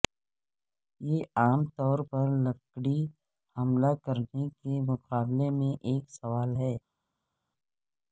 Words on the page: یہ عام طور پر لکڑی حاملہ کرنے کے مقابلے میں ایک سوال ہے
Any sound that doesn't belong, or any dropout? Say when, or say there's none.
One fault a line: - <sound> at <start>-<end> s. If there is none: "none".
none